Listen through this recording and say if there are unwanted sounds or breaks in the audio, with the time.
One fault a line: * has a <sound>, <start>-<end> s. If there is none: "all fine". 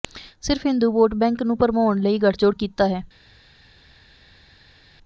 all fine